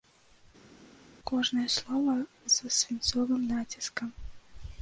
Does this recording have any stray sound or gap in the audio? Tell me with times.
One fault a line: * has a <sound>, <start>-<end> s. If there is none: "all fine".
all fine